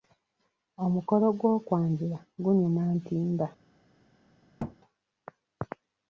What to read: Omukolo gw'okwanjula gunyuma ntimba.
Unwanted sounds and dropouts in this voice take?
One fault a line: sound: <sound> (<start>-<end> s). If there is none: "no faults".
sound: thud (4.6-4.8 s)